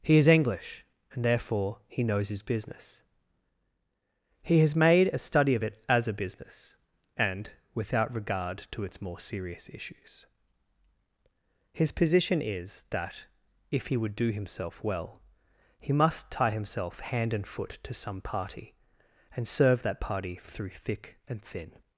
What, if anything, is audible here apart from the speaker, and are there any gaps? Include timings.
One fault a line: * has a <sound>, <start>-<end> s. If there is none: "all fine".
all fine